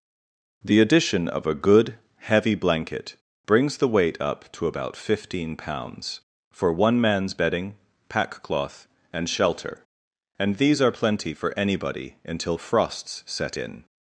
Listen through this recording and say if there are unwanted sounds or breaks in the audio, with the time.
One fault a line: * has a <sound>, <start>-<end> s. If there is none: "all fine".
all fine